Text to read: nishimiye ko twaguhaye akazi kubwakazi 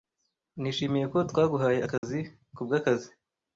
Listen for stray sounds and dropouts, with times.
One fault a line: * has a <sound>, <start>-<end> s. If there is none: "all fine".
* has a dropout, 2.0-2.0 s